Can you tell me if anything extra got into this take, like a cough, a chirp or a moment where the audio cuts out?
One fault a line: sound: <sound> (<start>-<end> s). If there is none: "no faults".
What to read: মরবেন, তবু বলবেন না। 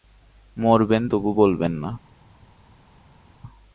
no faults